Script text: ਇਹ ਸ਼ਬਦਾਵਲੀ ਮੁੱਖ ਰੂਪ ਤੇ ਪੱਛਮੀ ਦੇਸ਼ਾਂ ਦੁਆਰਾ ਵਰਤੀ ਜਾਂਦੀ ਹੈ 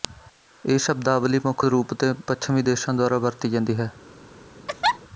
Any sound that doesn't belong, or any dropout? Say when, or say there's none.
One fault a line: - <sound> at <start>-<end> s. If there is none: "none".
- laugh at 4.7-5.0 s